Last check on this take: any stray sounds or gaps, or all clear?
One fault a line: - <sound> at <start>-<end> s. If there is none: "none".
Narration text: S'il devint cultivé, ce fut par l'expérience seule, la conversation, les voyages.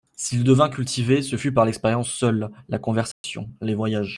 - dropout at 3.1-3.2 s